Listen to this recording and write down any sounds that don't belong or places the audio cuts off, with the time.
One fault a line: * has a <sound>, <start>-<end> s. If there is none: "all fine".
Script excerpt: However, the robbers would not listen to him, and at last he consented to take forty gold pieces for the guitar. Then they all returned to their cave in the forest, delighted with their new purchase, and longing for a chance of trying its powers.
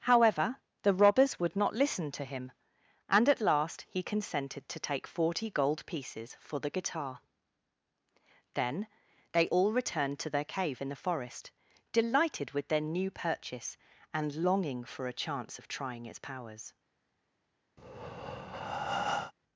* has a breath, 17.8-19.3 s